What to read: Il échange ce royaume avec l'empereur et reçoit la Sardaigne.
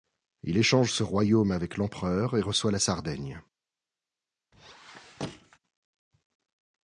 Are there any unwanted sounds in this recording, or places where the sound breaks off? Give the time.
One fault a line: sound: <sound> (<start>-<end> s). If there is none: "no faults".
sound: squeak (4.5-5.6 s)